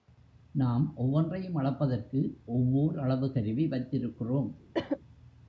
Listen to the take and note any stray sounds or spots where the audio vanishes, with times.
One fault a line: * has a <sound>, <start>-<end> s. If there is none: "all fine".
* has a cough, 4.7-5.0 s